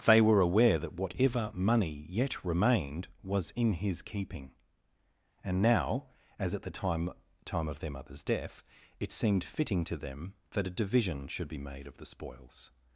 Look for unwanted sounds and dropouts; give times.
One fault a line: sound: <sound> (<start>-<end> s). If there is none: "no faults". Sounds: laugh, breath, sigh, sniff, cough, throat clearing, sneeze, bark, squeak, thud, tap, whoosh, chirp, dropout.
no faults